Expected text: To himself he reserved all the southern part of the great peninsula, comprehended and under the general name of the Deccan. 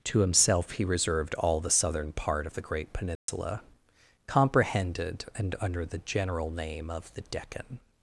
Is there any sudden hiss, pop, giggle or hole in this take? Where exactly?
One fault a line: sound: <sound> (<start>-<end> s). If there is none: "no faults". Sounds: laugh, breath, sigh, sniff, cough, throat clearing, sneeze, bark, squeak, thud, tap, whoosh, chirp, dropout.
sound: dropout (3.2-3.3 s)